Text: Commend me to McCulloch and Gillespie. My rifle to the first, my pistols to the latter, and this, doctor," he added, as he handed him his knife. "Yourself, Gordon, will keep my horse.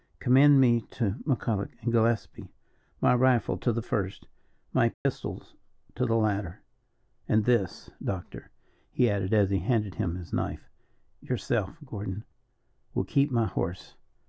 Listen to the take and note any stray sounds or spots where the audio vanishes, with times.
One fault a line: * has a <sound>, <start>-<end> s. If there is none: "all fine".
* has a dropout, 4.9-5.1 s